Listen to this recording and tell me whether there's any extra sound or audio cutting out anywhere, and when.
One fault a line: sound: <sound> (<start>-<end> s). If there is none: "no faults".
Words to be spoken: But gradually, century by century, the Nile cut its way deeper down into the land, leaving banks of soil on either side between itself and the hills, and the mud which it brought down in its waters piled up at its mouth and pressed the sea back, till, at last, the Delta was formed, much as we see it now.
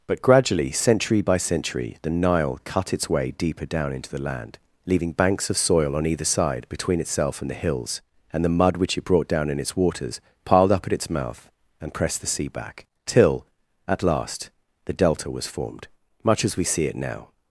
no faults